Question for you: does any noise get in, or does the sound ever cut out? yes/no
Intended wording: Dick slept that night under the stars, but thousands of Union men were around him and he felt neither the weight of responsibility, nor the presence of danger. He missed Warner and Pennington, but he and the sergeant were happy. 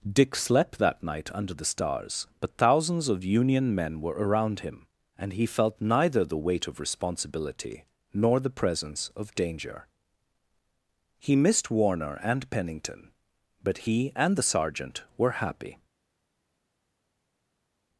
no